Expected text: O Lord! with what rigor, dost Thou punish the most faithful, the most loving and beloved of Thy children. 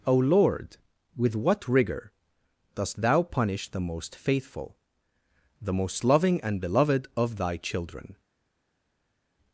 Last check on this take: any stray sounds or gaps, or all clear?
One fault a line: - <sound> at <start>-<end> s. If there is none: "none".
none